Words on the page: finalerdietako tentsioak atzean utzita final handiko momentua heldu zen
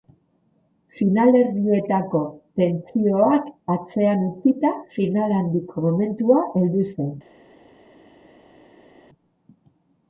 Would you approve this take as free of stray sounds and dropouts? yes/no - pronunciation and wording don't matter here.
yes